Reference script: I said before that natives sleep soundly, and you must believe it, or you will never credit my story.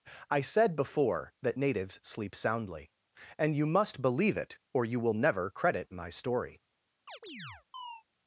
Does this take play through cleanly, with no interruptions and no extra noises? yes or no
no